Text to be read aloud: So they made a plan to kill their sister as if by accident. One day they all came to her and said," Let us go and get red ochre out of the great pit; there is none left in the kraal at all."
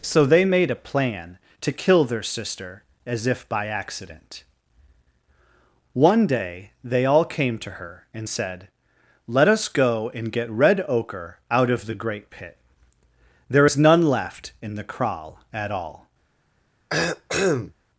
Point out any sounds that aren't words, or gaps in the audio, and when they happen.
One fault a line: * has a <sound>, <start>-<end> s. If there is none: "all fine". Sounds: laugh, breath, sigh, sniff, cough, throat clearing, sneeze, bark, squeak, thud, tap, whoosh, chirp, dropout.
* has a cough, 16.9-17.7 s